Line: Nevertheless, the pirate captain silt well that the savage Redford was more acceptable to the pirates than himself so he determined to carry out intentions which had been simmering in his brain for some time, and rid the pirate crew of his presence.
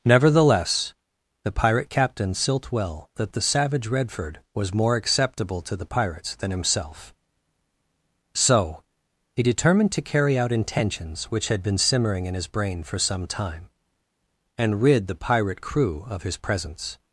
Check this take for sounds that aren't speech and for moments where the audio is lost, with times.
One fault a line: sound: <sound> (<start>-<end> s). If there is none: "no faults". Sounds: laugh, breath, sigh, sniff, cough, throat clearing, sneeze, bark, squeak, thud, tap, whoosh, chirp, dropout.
no faults